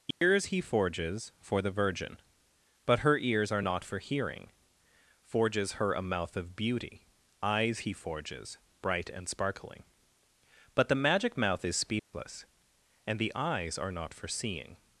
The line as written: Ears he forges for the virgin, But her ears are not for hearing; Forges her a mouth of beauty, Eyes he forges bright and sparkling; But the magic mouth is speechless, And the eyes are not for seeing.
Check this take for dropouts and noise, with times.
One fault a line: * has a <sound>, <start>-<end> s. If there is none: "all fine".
* has a dropout, 0.1-0.2 s
* has a dropout, 12.0-12.1 s